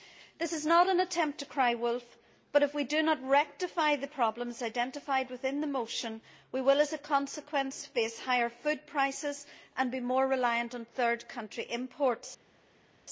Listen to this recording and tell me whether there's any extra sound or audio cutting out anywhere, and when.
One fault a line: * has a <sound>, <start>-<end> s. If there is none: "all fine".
all fine